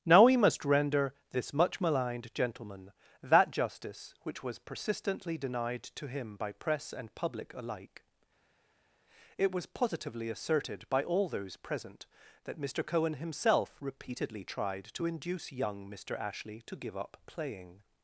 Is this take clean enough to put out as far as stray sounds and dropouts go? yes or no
yes